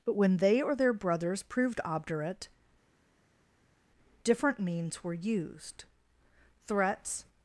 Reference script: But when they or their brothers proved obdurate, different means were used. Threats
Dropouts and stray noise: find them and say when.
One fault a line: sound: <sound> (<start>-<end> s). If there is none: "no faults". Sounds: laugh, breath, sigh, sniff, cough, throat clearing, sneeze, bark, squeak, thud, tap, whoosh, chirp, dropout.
no faults